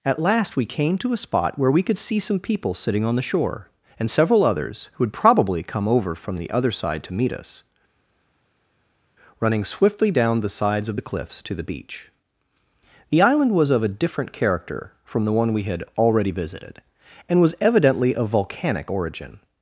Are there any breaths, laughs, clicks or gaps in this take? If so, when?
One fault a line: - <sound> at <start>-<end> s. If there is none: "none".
none